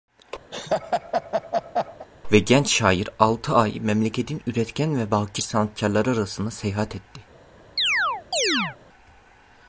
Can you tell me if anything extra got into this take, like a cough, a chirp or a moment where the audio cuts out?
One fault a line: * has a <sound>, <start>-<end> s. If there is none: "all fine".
* has a laugh, 0.5-2.1 s
* has a chirp, 7.8-8.8 s